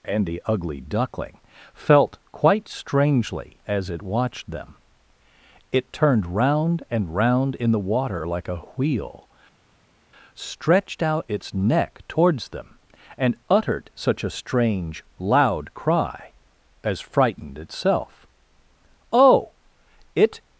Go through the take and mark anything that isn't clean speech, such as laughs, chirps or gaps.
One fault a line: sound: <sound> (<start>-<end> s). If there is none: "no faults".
no faults